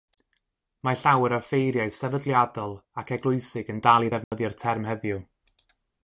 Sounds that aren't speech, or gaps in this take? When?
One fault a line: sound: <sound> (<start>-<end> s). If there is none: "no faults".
sound: dropout (4.2-4.3 s)